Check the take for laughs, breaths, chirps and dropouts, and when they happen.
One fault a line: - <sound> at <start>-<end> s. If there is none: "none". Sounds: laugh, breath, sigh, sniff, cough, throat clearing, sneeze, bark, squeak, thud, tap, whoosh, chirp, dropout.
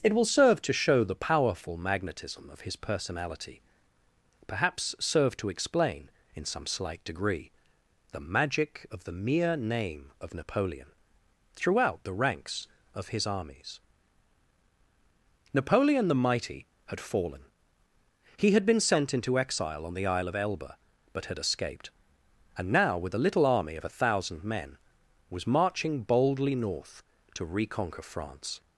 none